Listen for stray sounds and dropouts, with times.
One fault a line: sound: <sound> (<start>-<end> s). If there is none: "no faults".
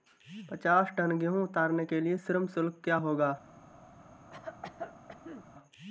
sound: cough (4.3-5.5 s)